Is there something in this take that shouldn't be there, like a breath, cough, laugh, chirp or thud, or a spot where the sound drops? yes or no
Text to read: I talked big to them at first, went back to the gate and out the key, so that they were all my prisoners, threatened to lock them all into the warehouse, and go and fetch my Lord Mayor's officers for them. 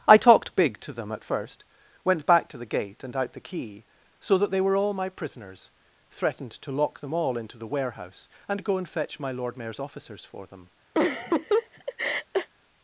yes